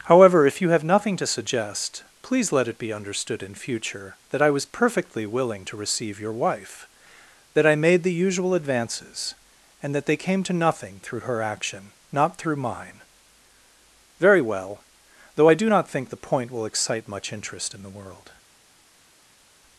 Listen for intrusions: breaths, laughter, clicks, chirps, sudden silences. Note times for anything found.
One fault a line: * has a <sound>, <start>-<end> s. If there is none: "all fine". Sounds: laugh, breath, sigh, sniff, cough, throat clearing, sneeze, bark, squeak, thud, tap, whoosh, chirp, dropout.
all fine